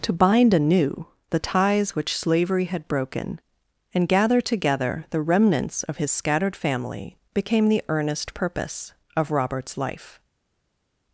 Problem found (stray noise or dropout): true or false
false